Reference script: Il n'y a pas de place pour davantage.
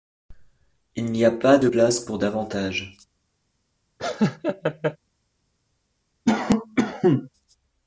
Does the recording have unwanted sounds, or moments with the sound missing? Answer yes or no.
yes